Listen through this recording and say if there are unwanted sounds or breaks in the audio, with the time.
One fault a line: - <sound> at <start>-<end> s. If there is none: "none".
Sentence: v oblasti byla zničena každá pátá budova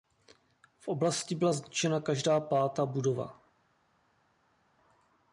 none